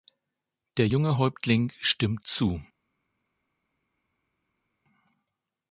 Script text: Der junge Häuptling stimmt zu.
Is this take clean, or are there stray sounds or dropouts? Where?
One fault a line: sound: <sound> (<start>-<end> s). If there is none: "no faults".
no faults